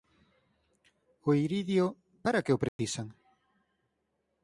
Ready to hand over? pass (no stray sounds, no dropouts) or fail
fail